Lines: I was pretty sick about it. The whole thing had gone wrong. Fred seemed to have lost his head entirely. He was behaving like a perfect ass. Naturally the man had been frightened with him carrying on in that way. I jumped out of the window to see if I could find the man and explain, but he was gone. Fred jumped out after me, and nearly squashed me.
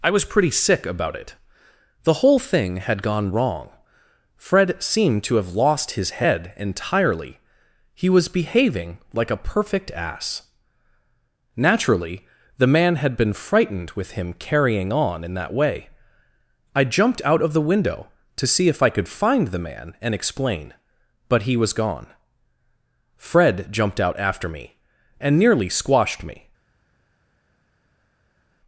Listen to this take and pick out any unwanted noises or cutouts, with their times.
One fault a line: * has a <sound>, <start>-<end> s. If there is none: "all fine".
all fine